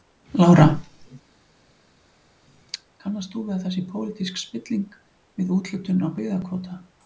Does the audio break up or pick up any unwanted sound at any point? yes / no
no